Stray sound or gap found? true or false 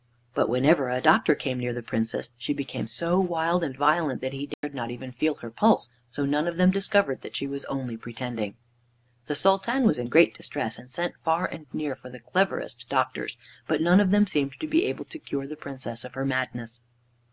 true